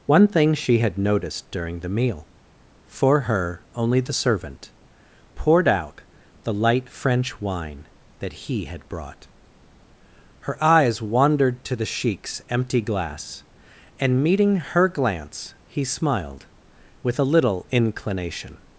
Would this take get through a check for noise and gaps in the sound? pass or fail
pass